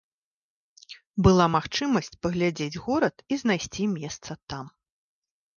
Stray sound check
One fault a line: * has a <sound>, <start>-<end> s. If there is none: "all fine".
all fine